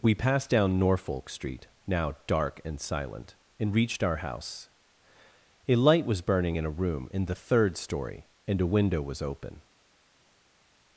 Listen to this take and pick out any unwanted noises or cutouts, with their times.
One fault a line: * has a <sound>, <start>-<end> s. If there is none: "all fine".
all fine